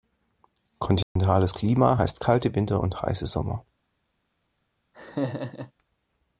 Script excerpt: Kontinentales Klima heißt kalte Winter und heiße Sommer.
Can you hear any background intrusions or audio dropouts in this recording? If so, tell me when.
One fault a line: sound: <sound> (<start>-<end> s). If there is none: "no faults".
sound: dropout (1.0-1.2 s)
sound: laugh (4.9-5.7 s)